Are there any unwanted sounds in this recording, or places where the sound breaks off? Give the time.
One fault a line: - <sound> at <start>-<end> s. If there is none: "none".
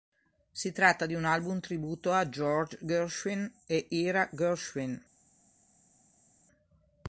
none